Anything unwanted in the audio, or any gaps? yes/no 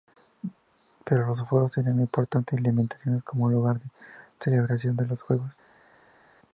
no